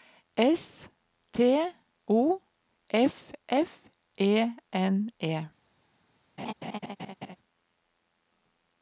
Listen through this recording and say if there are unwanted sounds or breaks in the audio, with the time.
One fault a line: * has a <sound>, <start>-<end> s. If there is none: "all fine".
* has a laugh, 6.4-7.4 s